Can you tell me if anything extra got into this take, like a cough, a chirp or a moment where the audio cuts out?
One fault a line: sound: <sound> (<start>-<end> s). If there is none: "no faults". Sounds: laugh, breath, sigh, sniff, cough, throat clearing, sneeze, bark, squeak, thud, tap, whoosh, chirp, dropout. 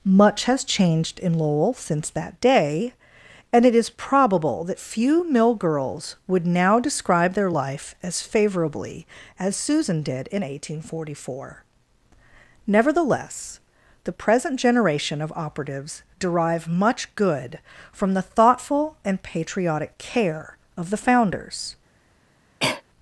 sound: cough (22.6-22.8 s)